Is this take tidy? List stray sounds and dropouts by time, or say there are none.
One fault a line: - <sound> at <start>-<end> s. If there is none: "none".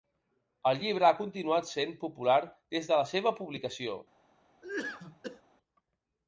- cough at 4.6-5.4 s